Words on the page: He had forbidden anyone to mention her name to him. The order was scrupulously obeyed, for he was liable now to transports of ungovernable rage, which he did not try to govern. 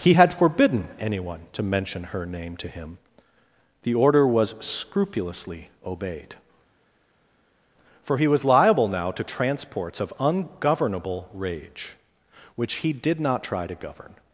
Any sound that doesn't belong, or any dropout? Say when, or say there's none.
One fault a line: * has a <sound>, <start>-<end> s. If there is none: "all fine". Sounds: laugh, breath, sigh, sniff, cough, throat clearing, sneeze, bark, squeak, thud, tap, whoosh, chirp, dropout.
all fine